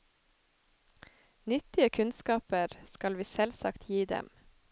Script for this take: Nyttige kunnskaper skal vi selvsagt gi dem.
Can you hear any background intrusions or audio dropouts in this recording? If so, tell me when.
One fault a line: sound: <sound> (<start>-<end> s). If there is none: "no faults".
no faults